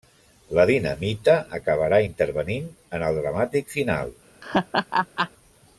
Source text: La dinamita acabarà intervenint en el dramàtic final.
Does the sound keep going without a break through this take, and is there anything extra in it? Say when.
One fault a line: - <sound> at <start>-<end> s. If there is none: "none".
- laugh at 4.4-5.3 s